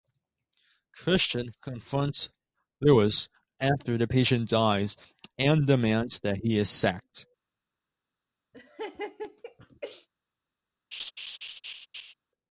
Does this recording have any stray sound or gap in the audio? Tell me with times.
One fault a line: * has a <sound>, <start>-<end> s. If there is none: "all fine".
* has a laugh, 8.5-10.1 s
* has a laugh, 10.9-12.1 s